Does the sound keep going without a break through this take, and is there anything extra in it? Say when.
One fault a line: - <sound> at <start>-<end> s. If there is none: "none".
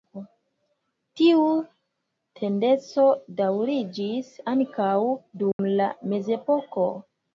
- dropout at 5.5-5.6 s